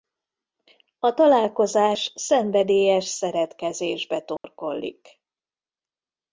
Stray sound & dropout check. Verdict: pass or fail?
fail